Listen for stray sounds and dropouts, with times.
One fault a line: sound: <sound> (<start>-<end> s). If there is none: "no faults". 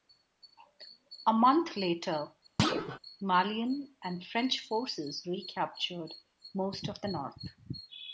sound: thud (2.6-3.0 s)